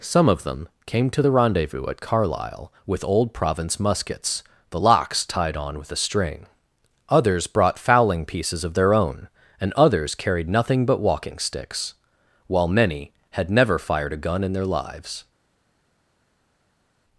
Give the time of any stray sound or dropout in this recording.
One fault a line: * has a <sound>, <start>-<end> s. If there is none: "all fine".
all fine